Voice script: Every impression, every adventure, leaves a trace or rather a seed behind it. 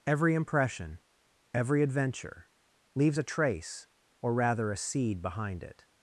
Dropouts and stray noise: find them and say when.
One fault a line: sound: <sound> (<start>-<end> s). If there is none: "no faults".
no faults